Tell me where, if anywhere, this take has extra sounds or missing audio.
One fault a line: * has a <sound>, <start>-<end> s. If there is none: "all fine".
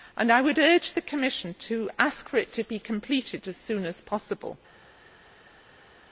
all fine